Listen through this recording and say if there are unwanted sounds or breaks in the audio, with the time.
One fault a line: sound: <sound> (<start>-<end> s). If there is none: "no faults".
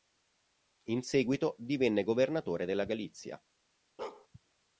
sound: bark (4.0-4.3 s)